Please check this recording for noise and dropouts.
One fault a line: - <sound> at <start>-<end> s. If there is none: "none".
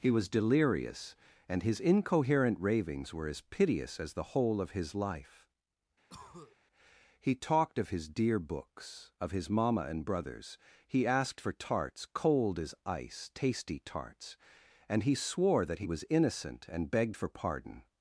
- cough at 6.1-6.6 s